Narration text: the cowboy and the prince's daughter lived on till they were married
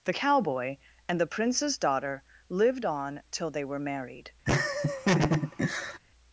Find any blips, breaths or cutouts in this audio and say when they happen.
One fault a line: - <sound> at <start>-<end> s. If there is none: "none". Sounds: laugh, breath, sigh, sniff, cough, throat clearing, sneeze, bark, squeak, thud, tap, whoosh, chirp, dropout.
- laugh at 4.5-6.0 s